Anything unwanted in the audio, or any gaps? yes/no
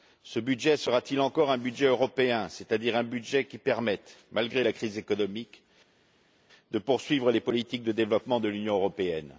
no